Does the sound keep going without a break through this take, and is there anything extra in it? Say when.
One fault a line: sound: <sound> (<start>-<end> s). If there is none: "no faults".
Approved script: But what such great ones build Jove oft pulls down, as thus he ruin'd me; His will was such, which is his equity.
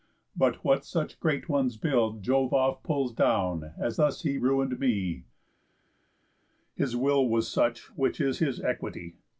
no faults